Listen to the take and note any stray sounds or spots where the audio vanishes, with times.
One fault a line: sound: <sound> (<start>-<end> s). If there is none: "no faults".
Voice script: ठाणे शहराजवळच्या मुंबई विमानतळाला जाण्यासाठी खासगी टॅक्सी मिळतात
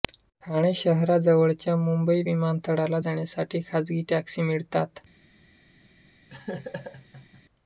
sound: laugh (6.3-7.4 s)